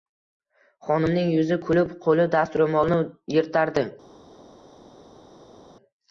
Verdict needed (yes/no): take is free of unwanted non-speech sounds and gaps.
yes